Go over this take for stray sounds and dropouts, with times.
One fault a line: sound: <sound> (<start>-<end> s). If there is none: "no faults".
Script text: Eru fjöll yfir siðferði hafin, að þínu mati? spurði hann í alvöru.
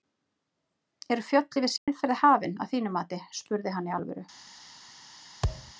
sound: dropout (1.8-1.9 s)
sound: thud (5.4-5.7 s)